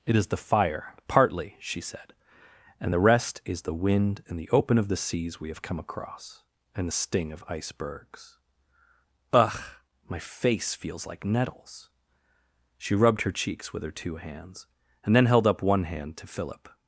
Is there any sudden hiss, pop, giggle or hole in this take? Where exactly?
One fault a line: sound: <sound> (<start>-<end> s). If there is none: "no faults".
no faults